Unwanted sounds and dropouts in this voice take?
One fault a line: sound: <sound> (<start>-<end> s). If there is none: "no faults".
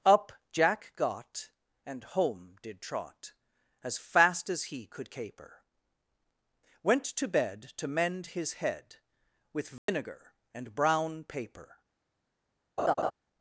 sound: dropout (9.8-9.9 s)
sound: laugh (12.8-13.1 s)